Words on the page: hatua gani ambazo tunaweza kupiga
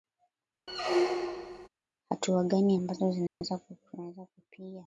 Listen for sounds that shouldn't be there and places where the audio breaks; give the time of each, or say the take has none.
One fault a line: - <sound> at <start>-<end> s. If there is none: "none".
- squeak at 0.7-1.7 s
- dropout at 3.3-3.4 s